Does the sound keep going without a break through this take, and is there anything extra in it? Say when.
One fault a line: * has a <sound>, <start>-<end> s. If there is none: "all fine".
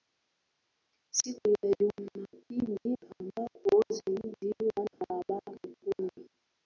* has a dropout, 4.9-5.0 s